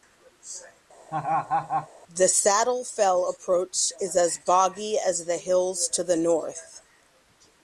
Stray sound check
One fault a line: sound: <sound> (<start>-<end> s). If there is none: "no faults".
sound: laugh (1.1-1.9 s)